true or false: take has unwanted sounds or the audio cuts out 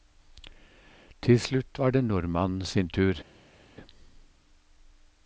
false